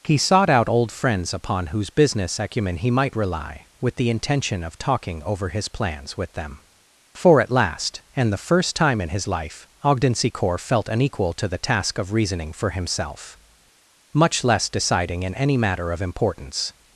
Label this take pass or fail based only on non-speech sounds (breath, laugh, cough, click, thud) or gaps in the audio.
pass